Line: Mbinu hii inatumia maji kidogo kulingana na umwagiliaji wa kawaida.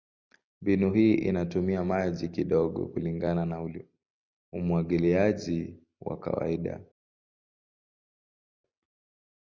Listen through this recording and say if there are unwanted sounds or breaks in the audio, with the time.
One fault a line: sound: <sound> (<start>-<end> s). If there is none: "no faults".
no faults